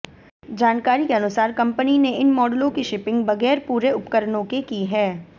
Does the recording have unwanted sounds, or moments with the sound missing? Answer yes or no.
no